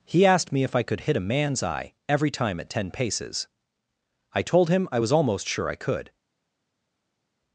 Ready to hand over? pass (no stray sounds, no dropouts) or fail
pass